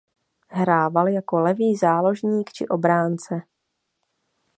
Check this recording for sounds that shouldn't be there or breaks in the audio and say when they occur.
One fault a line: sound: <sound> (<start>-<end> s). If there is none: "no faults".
no faults